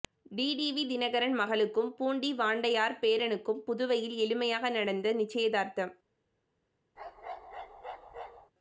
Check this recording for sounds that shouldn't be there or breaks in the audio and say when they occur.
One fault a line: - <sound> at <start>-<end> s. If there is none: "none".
- bark at 7.0-8.5 s